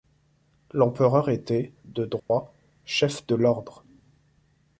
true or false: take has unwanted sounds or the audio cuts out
true